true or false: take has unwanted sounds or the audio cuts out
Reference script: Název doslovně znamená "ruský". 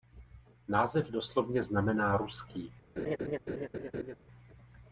true